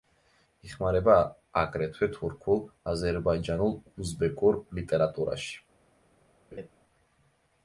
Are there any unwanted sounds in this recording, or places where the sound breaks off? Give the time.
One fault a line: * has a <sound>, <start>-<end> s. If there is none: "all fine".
* has a laugh, 6.5-6.7 s